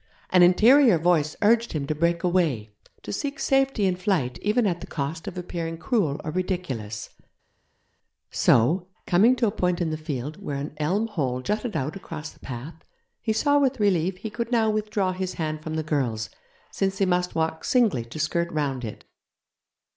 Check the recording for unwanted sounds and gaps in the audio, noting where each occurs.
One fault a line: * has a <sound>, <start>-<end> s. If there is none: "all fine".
all fine